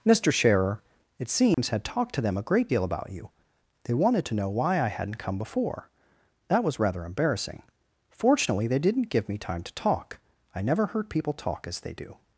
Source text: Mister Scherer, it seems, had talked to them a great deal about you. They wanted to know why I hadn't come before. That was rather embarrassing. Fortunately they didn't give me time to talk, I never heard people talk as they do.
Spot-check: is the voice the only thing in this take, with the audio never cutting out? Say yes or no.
no